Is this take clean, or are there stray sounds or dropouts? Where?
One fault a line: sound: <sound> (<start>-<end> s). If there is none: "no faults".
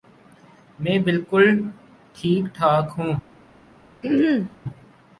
sound: throat clearing (4.0-4.6 s)